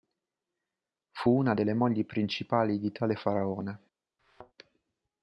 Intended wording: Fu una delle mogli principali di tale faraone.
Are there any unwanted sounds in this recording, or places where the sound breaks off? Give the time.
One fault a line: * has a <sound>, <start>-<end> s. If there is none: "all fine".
* has a thud, 4.2-4.5 s